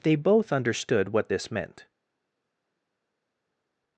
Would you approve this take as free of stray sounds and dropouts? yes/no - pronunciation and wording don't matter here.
yes